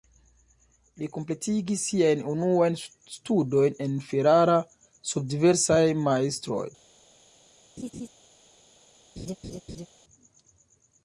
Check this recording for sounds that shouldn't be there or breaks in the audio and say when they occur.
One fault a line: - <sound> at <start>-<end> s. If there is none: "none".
- laugh at 7.8-8.1 s
- laugh at 9.2-9.9 s